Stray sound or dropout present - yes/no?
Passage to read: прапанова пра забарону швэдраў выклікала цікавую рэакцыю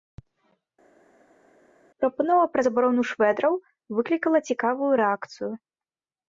no